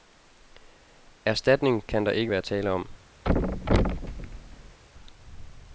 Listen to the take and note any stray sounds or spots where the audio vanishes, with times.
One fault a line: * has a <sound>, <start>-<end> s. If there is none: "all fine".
* has a thud, 3.2-4.8 s